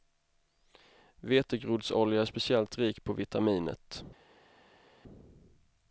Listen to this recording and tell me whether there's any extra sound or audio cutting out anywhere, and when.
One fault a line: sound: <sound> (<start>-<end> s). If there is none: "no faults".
no faults